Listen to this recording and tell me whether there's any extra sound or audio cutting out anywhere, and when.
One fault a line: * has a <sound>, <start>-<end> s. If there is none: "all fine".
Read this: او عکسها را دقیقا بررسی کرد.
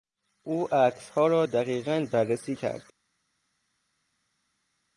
all fine